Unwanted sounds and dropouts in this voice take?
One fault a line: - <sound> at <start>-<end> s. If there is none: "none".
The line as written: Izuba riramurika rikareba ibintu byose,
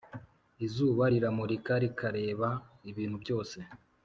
none